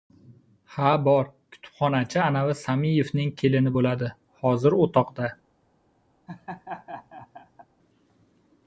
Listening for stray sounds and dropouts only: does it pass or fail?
fail